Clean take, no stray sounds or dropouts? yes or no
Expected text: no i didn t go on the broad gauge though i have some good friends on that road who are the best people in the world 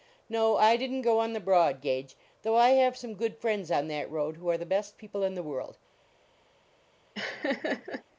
no